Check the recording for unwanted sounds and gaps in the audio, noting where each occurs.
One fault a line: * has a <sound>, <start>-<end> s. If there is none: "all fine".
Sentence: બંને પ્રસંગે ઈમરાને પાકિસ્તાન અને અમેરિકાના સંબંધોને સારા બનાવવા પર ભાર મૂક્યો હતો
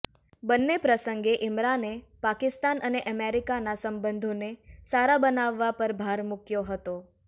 all fine